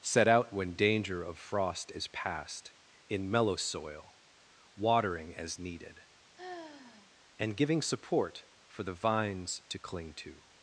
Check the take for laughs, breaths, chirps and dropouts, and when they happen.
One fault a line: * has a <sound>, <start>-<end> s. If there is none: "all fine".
* has a sigh, 6.4-7.1 s